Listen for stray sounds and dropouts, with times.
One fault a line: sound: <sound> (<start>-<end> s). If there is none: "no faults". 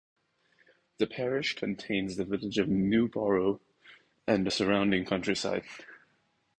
no faults